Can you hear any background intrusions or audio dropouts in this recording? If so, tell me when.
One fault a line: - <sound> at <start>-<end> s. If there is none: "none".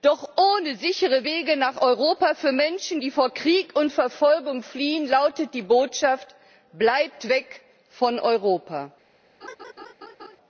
- laugh at 9.4-10.4 s